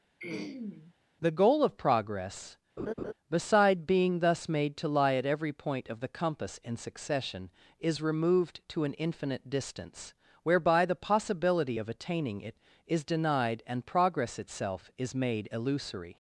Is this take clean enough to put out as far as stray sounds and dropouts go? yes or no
no